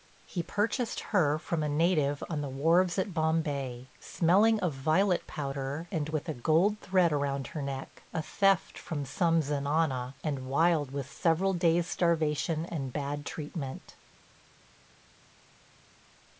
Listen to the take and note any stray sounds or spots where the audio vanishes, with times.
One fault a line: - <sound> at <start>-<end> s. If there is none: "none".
none